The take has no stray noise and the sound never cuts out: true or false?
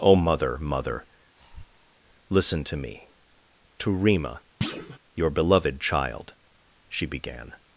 false